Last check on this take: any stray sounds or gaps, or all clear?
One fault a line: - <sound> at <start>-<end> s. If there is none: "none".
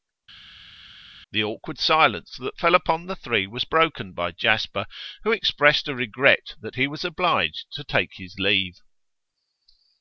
none